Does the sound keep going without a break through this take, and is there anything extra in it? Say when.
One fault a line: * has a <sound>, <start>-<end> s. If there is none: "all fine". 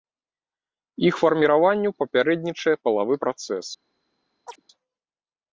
* has a chirp, 4.5-4.6 s